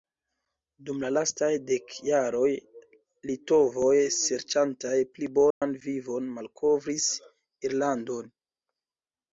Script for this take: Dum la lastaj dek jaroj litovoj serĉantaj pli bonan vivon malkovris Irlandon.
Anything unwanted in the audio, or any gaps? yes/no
yes